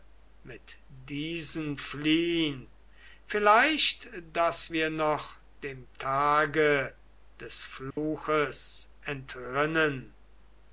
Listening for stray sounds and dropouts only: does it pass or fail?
fail